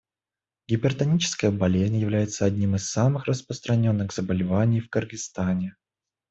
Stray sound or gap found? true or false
false